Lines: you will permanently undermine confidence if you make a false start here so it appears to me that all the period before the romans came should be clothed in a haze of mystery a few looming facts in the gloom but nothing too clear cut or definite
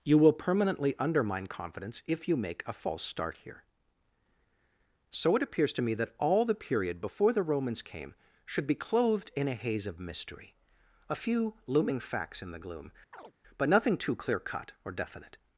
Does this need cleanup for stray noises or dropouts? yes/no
yes